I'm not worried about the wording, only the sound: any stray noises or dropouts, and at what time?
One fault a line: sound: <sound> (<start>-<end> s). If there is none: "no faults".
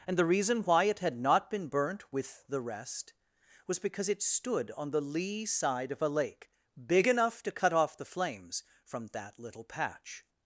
no faults